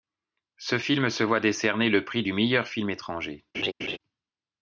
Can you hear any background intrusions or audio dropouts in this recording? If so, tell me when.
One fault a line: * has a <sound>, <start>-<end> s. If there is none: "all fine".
* has a laugh, 3.5-4.0 s